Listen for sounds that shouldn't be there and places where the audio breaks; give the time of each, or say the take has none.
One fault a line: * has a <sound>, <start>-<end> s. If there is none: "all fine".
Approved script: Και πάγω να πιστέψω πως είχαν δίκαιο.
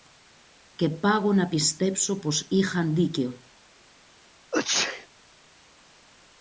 * has a sneeze, 4.5-5.1 s